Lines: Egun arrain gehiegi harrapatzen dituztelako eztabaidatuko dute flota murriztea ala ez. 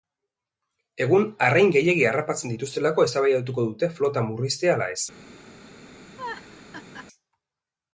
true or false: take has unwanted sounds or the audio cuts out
true